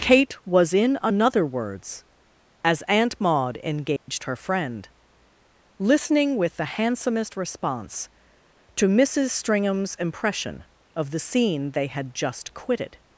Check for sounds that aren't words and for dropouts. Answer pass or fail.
fail